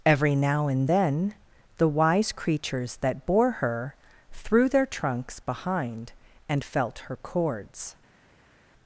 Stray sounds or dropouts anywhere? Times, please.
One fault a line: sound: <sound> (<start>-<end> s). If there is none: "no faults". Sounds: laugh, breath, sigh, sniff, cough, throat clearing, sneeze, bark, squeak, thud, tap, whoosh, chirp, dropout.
no faults